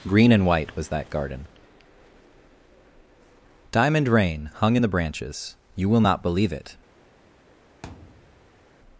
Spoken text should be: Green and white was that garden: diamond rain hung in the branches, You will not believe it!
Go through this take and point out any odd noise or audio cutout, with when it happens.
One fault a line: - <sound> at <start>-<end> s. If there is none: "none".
- thud at 7.8-8.6 s